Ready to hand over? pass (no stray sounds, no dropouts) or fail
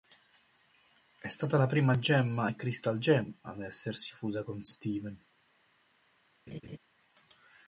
fail